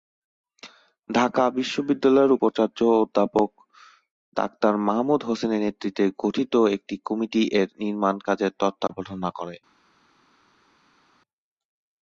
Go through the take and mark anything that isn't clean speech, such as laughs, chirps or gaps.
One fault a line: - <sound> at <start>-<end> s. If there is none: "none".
none